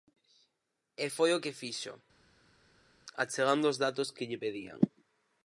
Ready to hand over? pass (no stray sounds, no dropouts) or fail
pass